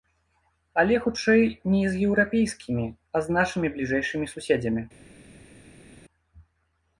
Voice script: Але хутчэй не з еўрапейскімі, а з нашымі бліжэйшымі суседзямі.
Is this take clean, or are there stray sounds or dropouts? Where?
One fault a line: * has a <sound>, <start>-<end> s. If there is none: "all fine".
all fine